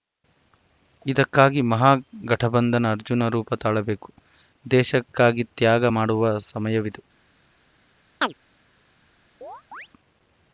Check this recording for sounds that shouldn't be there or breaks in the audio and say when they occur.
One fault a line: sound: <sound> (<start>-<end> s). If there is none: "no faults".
sound: chirp (8.2-8.3 s)
sound: chirp (9.4-9.9 s)